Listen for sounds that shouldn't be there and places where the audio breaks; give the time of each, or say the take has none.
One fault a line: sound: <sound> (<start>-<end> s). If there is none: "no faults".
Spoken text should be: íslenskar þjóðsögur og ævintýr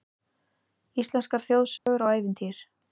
sound: dropout (1.8-1.9 s)